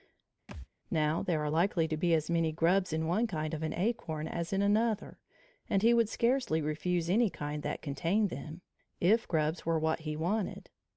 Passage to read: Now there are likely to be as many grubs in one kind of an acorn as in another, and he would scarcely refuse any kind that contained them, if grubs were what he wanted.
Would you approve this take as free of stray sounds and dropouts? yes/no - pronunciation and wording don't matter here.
no